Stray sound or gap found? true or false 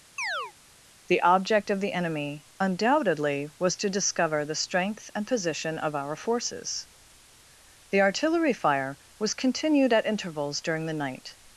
true